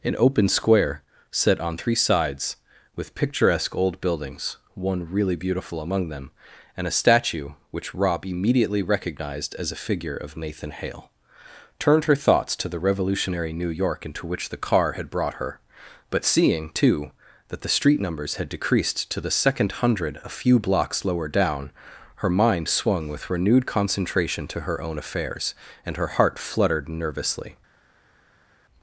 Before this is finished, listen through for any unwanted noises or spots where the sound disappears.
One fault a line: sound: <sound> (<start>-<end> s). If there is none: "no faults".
no faults